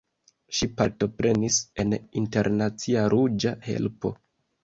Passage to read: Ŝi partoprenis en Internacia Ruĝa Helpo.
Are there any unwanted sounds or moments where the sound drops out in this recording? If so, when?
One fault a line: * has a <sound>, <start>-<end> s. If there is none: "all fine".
all fine